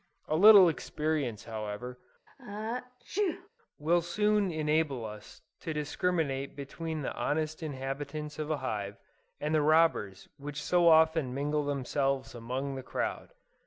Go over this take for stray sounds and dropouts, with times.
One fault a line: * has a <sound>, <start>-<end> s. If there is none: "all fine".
* has a sneeze, 2.3-3.5 s